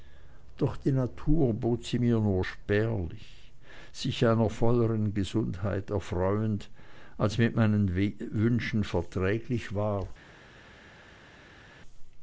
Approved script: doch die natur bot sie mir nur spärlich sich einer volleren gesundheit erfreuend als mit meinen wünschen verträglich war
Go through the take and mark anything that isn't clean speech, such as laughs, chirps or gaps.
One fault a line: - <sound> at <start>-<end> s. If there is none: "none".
none